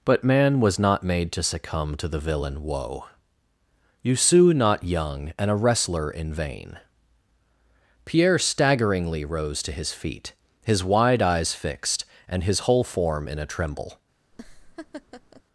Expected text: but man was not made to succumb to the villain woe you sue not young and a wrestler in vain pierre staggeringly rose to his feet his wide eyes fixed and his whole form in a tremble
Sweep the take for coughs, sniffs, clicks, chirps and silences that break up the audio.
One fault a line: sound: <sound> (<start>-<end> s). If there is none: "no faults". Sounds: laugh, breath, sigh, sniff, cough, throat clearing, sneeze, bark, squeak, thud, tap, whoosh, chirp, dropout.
sound: laugh (14.3-15.4 s)